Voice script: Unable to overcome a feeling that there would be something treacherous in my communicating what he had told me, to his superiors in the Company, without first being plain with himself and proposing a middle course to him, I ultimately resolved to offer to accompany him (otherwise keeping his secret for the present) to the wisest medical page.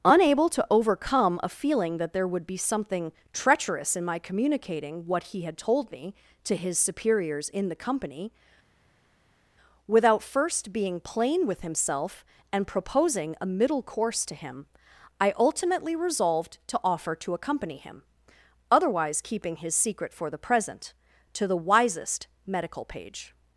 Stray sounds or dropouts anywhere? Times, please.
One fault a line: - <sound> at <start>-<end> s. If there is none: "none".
none